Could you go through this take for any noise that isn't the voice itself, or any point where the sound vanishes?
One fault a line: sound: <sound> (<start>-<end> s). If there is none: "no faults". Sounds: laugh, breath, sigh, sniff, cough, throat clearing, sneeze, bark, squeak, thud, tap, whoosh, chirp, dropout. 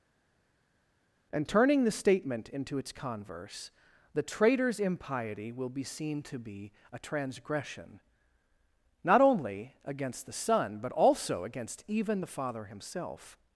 no faults